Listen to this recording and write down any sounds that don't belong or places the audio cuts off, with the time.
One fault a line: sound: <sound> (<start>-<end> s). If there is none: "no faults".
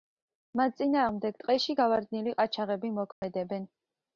sound: dropout (3.1-3.2 s)